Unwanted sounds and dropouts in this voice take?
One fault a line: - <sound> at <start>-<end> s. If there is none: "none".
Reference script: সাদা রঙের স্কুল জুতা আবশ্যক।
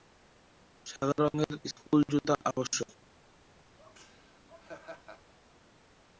- laugh at 3.8-5.3 s